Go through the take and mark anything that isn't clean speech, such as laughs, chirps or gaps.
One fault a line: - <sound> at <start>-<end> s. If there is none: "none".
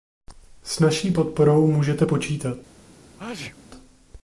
- sneeze at 3.2-3.6 s